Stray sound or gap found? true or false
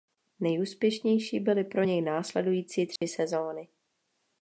true